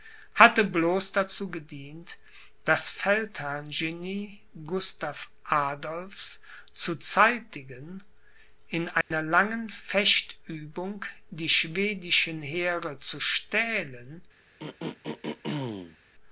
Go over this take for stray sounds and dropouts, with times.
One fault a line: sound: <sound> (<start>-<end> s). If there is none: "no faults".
sound: dropout (9.0-9.1 s)
sound: throat clearing (14.6-16.0 s)